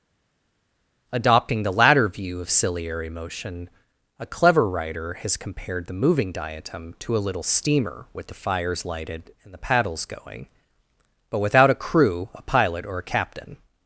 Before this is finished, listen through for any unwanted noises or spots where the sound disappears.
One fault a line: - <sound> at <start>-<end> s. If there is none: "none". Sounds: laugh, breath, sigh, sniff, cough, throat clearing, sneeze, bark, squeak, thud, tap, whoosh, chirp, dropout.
none